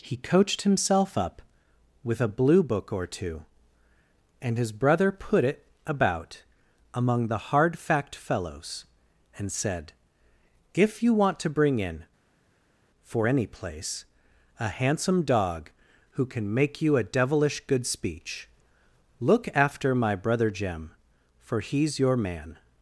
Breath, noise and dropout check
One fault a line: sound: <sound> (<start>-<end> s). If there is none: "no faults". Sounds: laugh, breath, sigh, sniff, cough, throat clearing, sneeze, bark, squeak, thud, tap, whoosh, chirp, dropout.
no faults